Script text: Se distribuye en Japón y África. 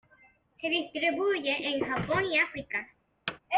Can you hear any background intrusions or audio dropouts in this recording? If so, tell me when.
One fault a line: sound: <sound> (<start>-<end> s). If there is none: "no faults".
sound: thud (3.3-3.4 s)